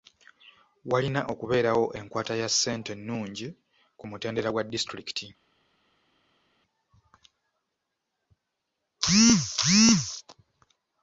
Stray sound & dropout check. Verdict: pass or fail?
pass